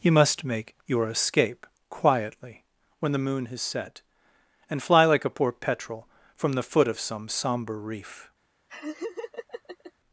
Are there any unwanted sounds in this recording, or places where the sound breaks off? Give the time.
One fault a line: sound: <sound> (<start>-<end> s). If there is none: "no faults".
sound: laugh (8.7-9.9 s)